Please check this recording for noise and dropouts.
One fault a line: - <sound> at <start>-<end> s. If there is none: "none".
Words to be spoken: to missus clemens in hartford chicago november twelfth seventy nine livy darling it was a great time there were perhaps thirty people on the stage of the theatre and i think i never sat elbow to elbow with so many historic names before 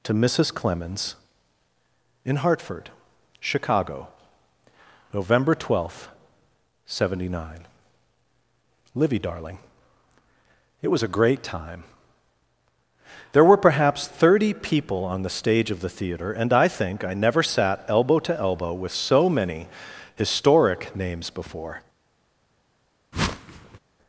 - whoosh at 23.1-23.8 s